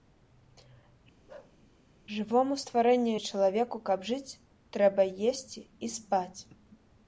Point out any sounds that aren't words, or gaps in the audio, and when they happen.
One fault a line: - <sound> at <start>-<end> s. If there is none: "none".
- bark at 1.3-1.6 s